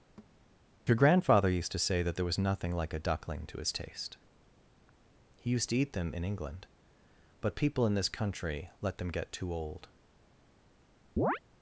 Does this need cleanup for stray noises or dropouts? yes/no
yes